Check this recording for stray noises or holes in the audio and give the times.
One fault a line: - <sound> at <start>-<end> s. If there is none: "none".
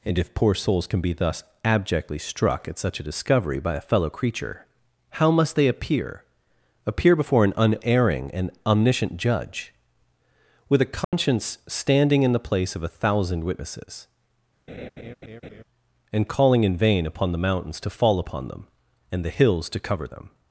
- dropout at 11.0-11.1 s
- laugh at 14.7-15.6 s